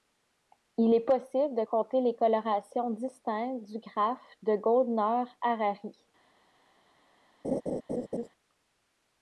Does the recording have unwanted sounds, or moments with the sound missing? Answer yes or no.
yes